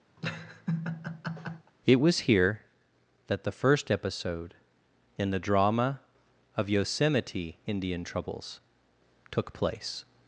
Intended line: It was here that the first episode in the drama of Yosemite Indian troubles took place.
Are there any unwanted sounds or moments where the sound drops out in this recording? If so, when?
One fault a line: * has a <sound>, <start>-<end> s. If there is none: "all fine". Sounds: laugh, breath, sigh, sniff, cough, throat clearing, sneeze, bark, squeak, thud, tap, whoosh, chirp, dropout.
* has a laugh, 0.2-1.7 s